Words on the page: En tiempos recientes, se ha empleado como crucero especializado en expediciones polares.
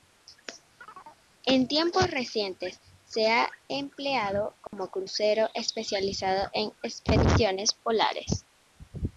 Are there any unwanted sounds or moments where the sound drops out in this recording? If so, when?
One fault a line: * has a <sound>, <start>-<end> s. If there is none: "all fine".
* has a chirp, 0.8-1.2 s
* has a dropout, 4.7-4.7 s